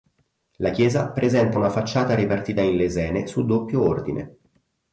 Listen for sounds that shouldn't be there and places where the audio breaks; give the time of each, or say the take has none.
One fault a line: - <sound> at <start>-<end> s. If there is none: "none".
none